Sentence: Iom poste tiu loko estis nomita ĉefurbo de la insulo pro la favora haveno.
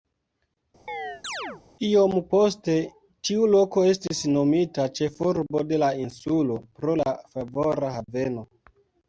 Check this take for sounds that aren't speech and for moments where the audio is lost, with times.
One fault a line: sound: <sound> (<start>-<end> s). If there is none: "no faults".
sound: chirp (0.9-1.6 s)